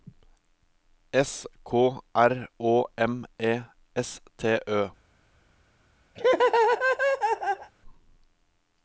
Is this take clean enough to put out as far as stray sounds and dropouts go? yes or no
no